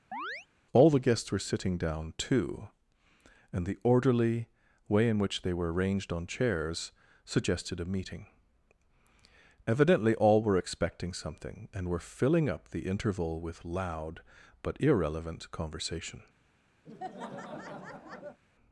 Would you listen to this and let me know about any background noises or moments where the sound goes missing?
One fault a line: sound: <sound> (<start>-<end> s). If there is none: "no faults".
sound: chirp (0.1-0.5 s)
sound: laugh (16.8-18.4 s)